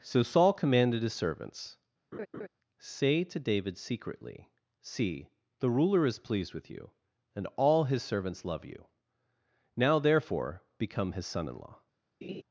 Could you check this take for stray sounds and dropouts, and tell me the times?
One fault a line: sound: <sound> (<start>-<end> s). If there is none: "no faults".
sound: laugh (2.1-2.5 s)
sound: laugh (12.2-12.4 s)